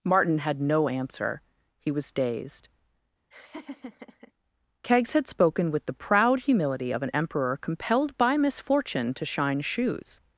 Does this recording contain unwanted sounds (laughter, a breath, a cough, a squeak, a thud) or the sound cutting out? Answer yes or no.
yes